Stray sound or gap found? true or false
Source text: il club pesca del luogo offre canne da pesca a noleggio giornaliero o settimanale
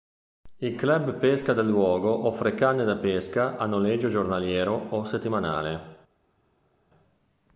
false